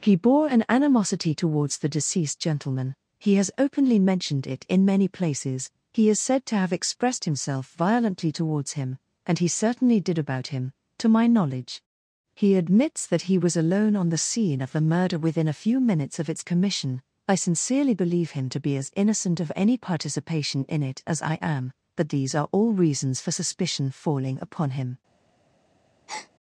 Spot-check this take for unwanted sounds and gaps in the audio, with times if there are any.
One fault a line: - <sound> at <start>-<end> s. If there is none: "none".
- breath at 26.1-26.3 s